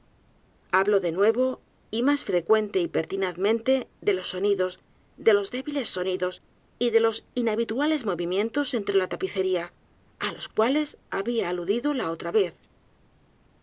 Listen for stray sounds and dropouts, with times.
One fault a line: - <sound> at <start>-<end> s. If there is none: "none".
none